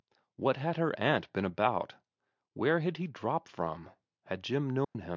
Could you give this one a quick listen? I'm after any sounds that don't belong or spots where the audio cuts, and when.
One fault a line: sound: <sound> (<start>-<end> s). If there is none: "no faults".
sound: dropout (4.8-5.0 s)